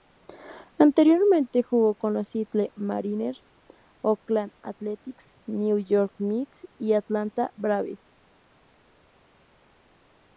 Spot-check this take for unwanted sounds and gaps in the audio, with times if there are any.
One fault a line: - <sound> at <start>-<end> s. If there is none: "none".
none